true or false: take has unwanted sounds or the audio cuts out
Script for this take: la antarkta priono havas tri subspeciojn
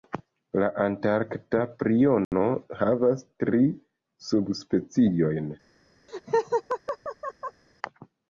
true